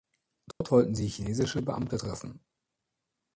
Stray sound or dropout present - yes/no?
yes